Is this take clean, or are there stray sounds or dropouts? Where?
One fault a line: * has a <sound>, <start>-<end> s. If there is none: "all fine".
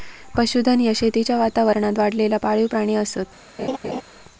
* has a laugh, 3.6-4.0 s